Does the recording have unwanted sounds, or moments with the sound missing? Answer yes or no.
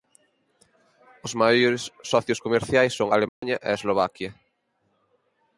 yes